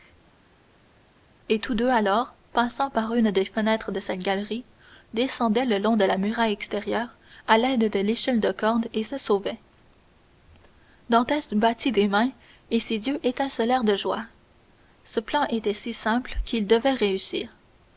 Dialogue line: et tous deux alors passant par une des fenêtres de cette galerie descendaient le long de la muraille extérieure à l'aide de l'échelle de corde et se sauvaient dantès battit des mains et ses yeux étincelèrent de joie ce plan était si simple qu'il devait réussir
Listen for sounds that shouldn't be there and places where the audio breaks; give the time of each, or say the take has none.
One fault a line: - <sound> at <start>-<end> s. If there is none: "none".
none